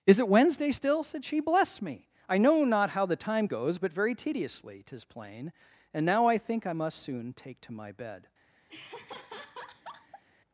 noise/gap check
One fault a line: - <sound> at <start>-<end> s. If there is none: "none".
- laugh at 8.7-10.2 s